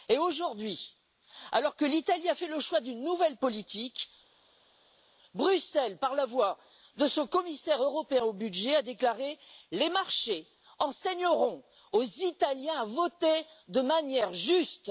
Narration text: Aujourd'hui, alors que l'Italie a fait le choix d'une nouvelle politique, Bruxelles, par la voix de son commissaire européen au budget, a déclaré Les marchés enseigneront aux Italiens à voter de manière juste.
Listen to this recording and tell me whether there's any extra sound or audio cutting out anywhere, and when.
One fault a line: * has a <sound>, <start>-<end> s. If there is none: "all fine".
all fine